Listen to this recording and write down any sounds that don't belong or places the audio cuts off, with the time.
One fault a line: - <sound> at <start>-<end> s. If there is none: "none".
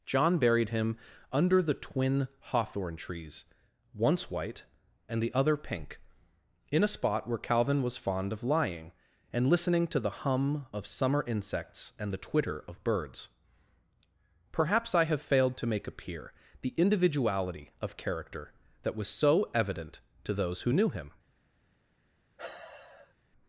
- sigh at 22.4-23.1 s